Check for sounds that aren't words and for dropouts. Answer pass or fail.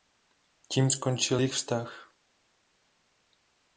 pass